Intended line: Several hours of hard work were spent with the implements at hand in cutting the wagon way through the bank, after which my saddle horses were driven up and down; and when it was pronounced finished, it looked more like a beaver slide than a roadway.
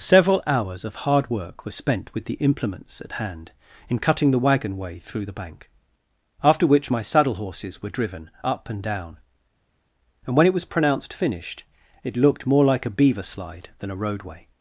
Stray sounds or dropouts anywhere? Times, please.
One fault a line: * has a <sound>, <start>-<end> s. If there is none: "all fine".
all fine